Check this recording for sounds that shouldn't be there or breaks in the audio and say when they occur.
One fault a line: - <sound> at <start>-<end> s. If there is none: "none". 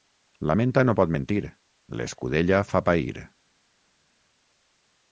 none